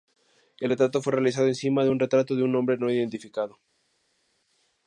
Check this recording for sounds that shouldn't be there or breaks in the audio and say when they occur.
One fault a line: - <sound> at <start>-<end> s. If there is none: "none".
none